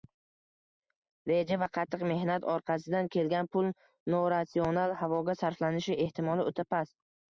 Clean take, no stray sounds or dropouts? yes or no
yes